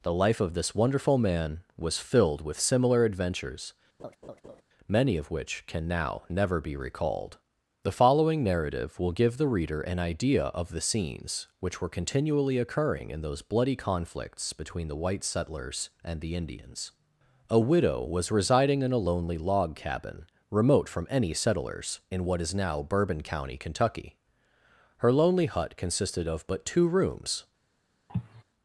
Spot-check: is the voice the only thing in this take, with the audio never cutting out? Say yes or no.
no